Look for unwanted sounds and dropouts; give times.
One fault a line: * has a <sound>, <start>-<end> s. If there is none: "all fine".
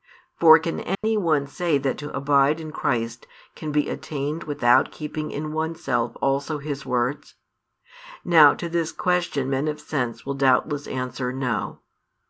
* has a dropout, 0.9-1.0 s